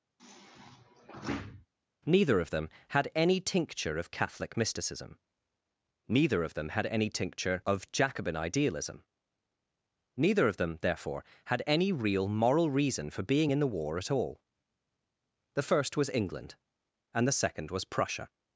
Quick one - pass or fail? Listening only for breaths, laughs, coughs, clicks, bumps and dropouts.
fail